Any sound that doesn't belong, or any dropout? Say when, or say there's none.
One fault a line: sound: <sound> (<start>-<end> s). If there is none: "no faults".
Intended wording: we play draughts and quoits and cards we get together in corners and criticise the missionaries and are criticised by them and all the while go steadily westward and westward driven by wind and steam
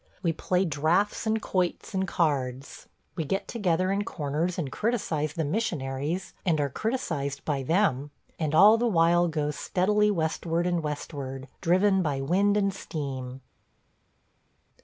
no faults